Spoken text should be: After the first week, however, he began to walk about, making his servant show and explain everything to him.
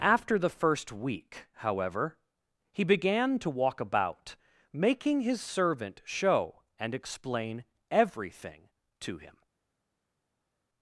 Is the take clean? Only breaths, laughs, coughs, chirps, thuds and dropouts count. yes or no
yes